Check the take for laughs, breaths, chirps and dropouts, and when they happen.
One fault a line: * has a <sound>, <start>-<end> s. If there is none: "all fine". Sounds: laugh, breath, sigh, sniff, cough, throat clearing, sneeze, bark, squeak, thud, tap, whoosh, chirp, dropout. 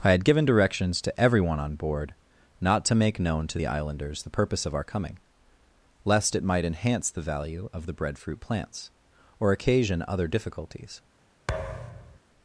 * has a thud, 11.5-12.2 s